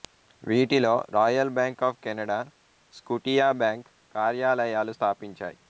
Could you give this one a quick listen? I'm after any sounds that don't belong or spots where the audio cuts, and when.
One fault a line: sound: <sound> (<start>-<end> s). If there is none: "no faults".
no faults